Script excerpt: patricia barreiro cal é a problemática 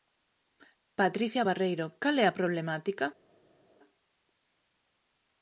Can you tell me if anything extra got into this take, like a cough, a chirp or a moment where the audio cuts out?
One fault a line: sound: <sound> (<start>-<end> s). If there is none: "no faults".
no faults